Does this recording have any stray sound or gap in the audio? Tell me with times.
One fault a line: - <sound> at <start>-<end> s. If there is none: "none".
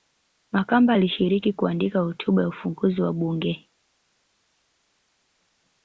none